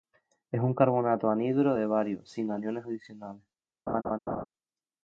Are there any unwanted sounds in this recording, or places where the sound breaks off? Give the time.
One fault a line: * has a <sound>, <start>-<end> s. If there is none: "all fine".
* has a laugh, 3.9-4.4 s